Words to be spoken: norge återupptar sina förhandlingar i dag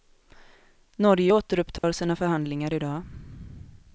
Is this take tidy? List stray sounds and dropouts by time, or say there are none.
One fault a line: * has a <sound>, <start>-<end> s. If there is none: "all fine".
* has a dropout, 1.8-1.8 s